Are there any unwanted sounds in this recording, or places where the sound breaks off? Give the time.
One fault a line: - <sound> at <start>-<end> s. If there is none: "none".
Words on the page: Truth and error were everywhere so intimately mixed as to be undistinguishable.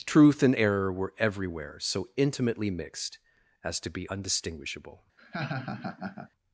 - laugh at 5.2-6.3 s